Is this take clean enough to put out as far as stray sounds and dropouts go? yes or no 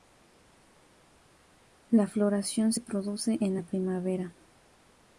yes